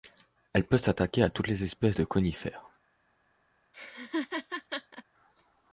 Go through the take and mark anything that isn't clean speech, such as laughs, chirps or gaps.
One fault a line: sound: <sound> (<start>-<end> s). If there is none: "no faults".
sound: laugh (3.7-5.0 s)